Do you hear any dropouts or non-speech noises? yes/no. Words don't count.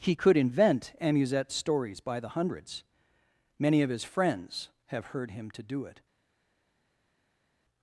no